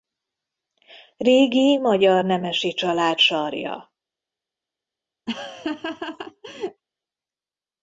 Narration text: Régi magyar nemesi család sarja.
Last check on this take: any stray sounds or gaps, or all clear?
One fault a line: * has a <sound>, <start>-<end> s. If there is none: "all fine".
* has a laugh, 5.3-6.8 s